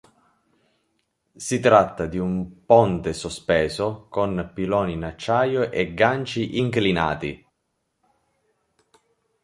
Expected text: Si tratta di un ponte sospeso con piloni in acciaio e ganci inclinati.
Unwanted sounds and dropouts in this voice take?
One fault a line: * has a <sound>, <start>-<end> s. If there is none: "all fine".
all fine